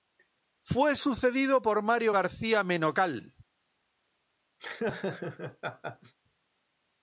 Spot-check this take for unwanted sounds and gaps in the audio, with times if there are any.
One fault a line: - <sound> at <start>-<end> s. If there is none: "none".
- laugh at 4.6-6.1 s